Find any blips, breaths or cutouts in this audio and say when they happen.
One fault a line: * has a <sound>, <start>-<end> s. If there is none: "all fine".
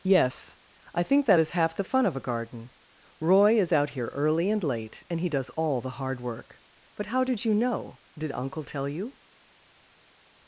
all fine